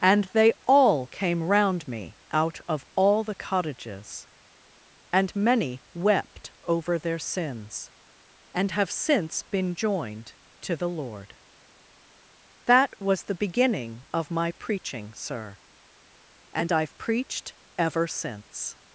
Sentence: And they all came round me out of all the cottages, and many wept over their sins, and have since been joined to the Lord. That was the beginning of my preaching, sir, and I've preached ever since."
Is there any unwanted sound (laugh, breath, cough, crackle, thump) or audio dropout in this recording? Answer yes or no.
no